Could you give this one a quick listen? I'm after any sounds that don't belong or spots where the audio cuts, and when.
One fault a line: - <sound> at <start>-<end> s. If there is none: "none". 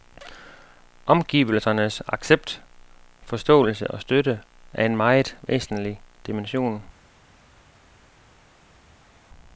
none